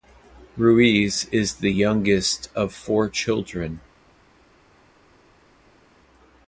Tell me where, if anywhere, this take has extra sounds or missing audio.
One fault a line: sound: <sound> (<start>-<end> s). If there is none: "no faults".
no faults